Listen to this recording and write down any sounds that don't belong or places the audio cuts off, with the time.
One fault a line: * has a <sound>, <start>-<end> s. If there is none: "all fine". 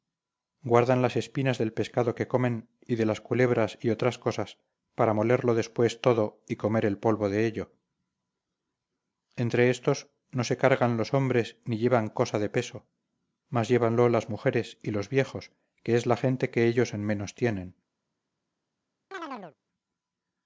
* has a chirp, 19.1-19.6 s